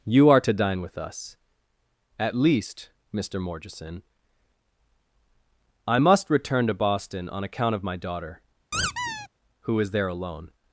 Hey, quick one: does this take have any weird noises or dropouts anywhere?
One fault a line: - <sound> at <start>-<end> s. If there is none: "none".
- squeak at 8.7-9.3 s